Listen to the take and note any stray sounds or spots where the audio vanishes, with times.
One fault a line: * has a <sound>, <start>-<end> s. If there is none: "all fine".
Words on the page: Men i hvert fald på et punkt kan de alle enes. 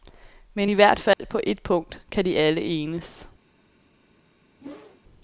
* has a dropout, 1.1-1.2 s
* has a whoosh, 4.6-5.0 s